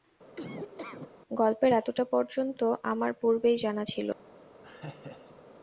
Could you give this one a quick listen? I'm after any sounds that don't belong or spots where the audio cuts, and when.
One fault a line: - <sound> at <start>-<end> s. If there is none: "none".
- laugh at 0.4-1.1 s
- laugh at 4.6-5.4 s